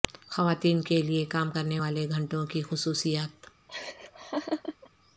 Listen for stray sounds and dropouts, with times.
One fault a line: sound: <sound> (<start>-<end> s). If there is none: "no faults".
sound: laugh (3.7-4.9 s)